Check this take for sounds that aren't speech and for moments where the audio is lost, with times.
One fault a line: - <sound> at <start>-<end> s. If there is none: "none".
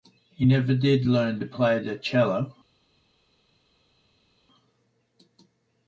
none